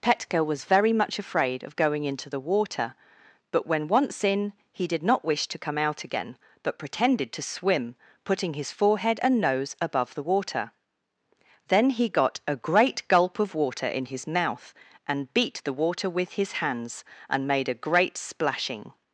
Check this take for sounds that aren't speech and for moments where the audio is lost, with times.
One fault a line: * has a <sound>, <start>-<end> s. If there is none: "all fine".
all fine